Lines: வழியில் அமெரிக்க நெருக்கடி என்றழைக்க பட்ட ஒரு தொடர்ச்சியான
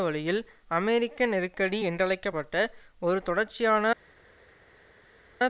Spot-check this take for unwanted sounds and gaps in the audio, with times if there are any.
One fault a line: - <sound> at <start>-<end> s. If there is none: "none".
none